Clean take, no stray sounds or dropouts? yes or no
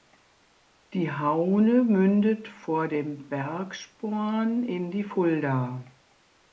yes